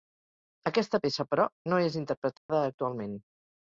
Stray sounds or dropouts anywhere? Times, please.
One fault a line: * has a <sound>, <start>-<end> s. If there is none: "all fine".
* has a dropout, 2.4-2.5 s